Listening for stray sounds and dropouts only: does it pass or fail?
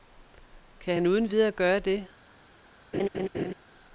fail